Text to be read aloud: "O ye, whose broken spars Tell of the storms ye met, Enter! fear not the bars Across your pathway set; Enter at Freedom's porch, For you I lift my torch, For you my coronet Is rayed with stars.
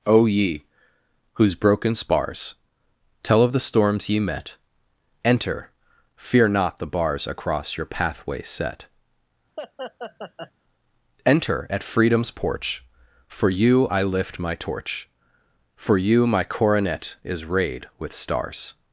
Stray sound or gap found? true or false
true